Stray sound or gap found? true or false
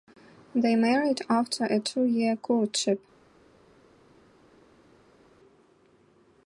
false